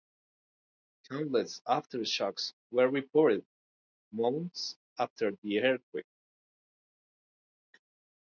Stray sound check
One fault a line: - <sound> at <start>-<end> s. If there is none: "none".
none